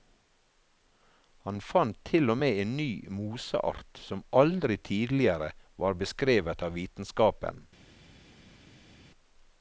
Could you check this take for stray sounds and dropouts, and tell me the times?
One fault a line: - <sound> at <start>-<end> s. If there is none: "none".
none